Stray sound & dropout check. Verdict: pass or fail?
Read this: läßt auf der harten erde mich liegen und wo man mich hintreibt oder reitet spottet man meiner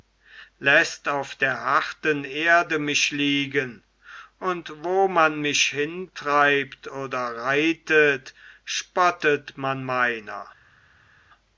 pass